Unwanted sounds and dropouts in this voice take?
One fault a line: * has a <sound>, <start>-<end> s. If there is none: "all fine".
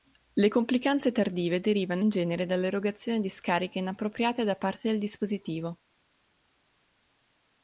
all fine